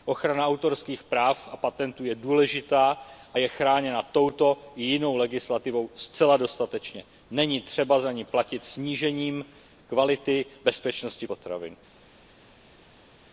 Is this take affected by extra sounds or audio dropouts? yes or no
no